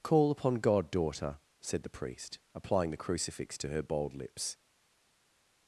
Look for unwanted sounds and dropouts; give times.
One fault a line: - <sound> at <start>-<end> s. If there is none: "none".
none